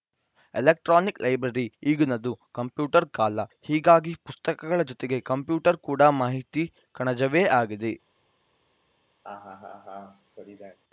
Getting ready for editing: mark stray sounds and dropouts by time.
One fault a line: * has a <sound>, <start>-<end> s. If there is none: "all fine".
* has a laugh, 9.2-10.8 s